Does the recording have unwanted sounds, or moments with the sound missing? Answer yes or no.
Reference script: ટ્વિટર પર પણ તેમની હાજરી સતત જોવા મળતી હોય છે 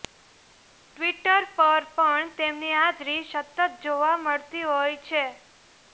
no